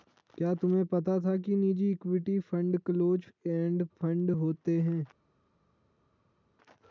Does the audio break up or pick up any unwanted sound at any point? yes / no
no